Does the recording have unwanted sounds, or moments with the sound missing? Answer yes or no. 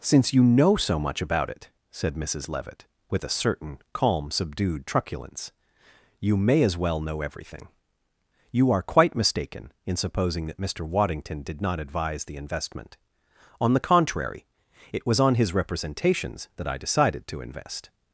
no